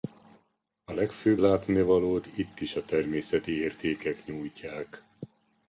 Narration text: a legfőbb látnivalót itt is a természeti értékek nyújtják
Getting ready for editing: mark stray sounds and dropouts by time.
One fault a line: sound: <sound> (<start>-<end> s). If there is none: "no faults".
no faults